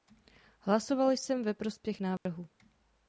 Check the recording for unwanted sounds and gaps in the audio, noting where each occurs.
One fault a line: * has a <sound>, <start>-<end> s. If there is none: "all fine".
* has a dropout, 2.2-2.3 s